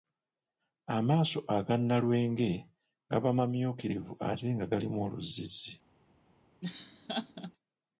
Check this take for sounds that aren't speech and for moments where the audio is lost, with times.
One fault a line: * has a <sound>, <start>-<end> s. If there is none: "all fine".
* has a laugh, 6.6-7.5 s